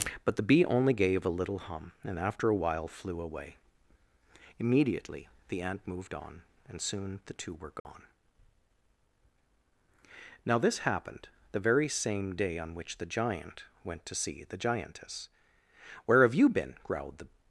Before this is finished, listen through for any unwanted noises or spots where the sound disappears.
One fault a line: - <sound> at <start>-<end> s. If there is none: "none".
- dropout at 7.8-7.8 s